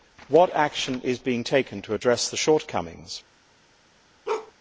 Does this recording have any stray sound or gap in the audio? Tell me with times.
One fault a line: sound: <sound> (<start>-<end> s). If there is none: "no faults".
sound: bark (4.3-4.5 s)